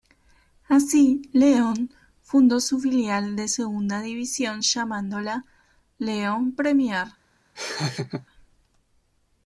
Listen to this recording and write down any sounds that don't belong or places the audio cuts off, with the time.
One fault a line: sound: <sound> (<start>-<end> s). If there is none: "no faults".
sound: laugh (7.6-8.3 s)